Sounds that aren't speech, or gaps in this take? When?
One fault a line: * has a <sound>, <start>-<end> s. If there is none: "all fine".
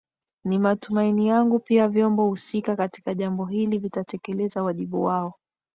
all fine